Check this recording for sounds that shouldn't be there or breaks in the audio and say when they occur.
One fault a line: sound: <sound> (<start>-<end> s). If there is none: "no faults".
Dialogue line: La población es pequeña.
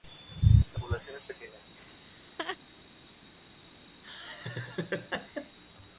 sound: laugh (1.8-2.6 s)
sound: laugh (4.0-5.6 s)